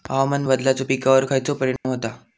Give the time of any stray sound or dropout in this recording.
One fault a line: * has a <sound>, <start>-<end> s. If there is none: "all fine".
* has a dropout, 1.8-1.8 s